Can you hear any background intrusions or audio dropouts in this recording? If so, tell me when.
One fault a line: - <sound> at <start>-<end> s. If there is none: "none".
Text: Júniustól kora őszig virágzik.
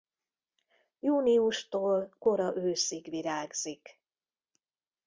none